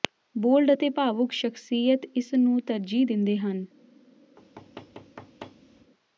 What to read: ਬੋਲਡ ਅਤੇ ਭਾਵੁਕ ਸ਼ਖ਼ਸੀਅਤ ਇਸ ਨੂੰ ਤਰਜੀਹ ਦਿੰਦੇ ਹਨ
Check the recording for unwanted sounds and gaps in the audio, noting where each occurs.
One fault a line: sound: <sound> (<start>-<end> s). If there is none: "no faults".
sound: thud (4.4-5.9 s)